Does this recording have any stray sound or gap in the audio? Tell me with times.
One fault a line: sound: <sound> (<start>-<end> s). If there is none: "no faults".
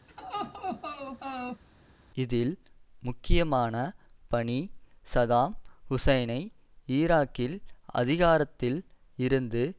sound: laugh (0.1-1.6 s)